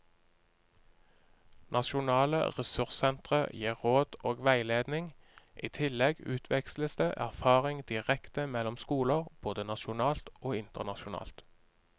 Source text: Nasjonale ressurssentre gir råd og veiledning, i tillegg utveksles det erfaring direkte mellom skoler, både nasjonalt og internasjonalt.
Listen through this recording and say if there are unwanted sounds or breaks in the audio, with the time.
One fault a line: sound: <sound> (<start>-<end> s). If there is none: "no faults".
no faults